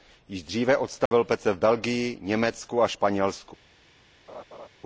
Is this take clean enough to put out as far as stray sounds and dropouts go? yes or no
no